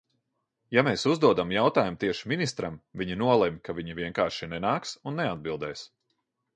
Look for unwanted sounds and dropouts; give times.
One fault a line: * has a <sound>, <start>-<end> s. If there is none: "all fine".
all fine